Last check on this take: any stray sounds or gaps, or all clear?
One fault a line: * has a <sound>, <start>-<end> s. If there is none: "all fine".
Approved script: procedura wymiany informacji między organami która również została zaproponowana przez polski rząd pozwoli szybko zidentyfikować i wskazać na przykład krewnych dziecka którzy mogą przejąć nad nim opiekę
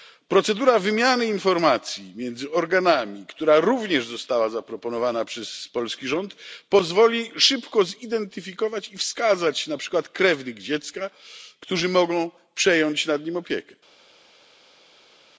all fine